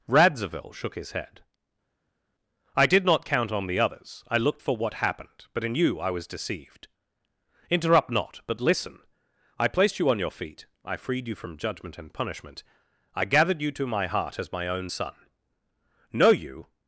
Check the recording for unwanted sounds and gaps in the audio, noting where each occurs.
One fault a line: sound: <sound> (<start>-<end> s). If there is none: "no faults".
no faults